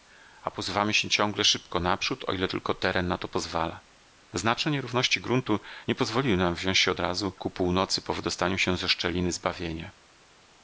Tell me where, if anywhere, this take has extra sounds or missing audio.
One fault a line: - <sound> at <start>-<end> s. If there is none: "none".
none